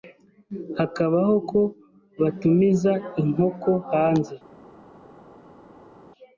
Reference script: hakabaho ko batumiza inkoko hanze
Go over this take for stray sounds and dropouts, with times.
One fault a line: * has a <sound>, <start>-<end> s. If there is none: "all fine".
all fine